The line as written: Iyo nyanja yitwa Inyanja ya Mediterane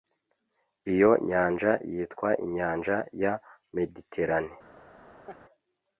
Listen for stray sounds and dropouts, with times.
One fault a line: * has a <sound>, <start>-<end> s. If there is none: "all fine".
* has a laugh, 5.3-5.4 s